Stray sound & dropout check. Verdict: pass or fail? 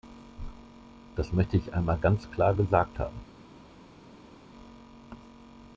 pass